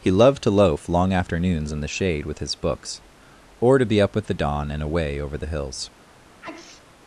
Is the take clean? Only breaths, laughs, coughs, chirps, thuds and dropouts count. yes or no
no